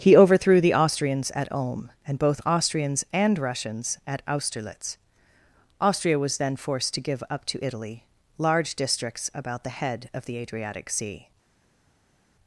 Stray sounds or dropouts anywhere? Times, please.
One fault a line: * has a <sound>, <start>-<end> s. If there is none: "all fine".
all fine